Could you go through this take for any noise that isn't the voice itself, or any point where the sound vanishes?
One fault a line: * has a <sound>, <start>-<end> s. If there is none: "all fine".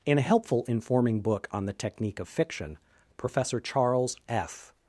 all fine